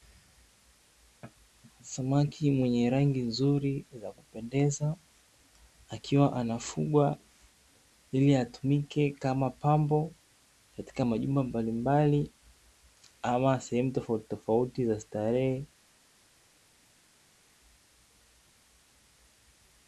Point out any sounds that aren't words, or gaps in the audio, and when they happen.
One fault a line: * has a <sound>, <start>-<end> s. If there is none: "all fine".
all fine